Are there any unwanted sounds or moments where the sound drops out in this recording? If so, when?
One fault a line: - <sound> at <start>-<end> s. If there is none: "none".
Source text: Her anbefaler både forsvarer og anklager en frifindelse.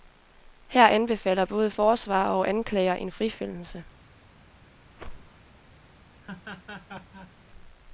- whoosh at 4.9-5.4 s
- laugh at 6.2-7.3 s